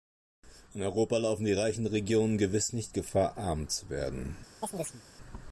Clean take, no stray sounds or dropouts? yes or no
no